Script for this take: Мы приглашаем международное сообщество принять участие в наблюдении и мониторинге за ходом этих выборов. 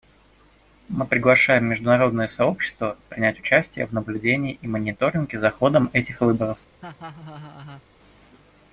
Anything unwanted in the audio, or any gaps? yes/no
yes